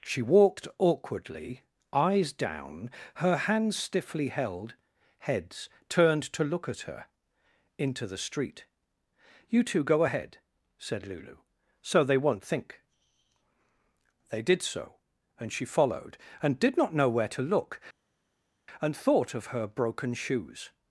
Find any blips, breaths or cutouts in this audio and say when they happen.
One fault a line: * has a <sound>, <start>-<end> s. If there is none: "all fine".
all fine